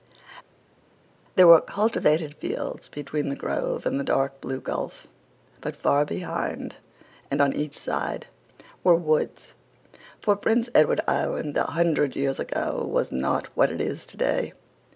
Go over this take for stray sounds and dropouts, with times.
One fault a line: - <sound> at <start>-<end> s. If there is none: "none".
none